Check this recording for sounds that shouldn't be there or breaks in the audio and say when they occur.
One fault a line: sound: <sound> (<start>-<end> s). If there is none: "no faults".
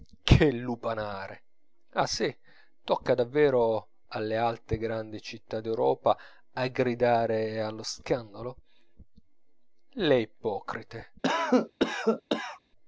sound: cough (11.2-12.6 s)